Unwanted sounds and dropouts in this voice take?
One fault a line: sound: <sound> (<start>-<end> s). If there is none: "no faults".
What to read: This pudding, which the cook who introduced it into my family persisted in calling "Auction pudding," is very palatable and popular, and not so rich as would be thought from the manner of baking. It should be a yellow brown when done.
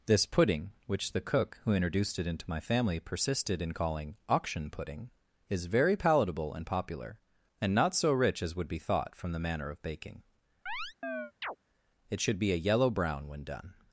sound: chirp (10.7-11.6 s)